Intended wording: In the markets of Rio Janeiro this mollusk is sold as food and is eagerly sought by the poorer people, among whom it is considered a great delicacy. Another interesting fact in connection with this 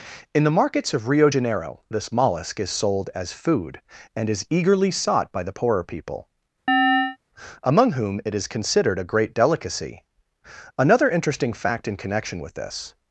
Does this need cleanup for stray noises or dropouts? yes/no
yes